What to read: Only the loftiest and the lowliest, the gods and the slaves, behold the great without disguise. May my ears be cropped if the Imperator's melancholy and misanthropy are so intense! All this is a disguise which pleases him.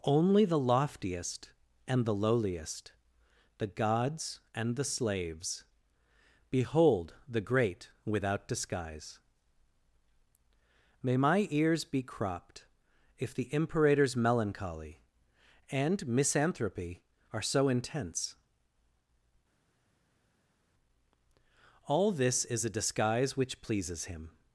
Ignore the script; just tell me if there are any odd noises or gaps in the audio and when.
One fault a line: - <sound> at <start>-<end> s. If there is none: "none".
none